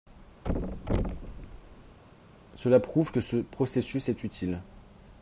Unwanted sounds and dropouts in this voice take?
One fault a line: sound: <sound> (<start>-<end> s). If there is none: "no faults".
sound: thud (0.4-2.0 s)